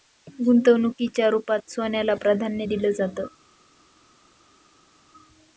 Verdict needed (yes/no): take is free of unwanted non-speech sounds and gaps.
yes